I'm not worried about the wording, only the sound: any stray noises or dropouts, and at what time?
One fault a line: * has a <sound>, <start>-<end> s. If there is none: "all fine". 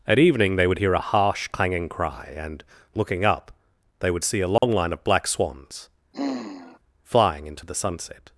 * has a dropout, 4.6-4.6 s
* has a sigh, 6.1-6.8 s